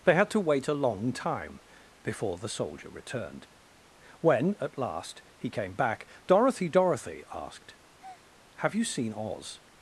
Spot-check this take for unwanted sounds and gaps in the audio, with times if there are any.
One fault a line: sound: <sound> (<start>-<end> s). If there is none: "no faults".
sound: breath (8.0-8.3 s)